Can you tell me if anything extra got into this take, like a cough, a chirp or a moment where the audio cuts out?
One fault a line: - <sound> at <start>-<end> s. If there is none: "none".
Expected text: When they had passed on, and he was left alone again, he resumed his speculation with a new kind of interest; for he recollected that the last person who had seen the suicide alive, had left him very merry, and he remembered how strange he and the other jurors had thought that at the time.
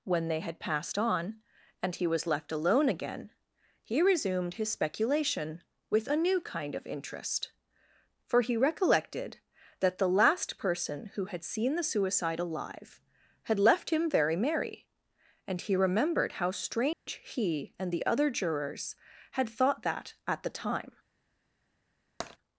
- dropout at 16.9-17.1 s
- tap at 22.2-22.4 s